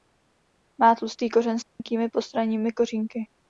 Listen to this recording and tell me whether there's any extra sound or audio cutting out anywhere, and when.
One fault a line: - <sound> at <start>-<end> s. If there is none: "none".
- dropout at 1.7-1.8 s